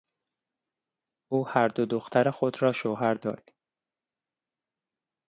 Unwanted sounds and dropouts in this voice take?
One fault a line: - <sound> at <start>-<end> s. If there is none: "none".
none